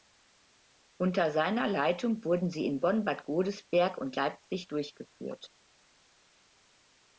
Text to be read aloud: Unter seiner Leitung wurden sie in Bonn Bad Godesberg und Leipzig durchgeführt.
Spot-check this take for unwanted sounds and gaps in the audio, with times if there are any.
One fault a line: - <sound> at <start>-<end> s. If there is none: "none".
none